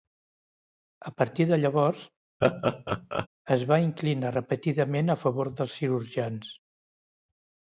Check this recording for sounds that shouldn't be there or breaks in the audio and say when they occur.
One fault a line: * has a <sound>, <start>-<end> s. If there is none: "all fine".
* has a laugh, 2.4-3.3 s